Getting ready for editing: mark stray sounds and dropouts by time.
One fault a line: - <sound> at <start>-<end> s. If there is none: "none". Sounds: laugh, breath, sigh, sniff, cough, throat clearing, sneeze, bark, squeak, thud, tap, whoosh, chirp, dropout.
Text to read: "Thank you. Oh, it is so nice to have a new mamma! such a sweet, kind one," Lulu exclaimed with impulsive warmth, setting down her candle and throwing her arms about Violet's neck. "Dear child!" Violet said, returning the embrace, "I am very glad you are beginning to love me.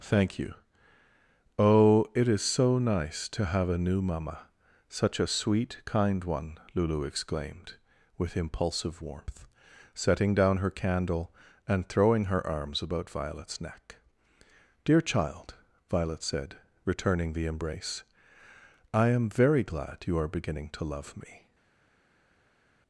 none